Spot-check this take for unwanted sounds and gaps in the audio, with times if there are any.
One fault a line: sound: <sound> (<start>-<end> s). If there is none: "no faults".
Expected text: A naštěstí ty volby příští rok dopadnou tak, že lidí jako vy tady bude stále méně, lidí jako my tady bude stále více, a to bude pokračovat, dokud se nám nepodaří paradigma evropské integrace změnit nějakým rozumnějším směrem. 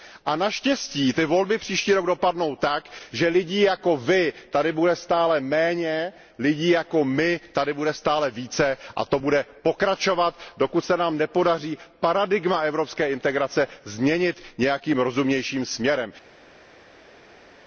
no faults